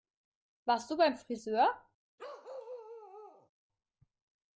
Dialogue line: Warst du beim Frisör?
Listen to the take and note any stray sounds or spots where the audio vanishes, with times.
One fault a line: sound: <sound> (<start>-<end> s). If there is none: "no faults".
sound: bark (2.2-3.5 s)